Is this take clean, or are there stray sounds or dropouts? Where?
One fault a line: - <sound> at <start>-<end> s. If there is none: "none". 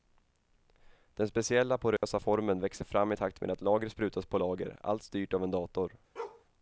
- dropout at 2.0-2.0 s
- bark at 6.2-6.5 s